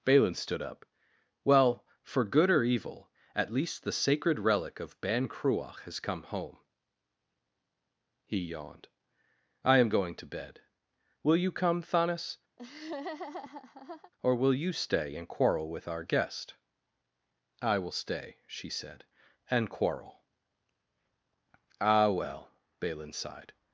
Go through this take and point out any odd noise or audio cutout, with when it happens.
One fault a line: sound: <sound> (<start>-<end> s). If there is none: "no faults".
sound: laugh (12.6-14.1 s)